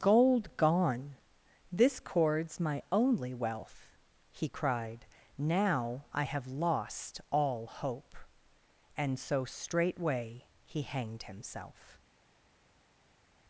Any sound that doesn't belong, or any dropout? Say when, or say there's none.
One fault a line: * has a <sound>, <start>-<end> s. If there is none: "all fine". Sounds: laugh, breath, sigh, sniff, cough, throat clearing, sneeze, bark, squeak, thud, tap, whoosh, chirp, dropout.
all fine